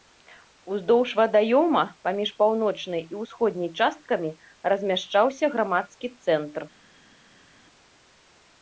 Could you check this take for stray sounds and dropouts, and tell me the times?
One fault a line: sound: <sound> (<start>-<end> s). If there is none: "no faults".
no faults